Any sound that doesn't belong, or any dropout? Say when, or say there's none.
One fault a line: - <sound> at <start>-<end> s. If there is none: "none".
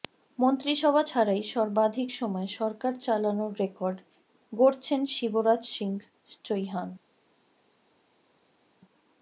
none